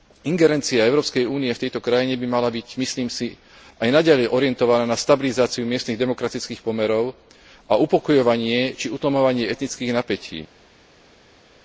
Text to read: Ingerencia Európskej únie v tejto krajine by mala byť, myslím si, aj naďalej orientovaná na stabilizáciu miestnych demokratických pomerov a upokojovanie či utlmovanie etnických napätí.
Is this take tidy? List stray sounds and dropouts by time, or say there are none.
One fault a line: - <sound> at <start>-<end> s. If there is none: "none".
none